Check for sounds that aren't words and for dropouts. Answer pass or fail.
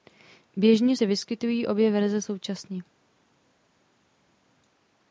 pass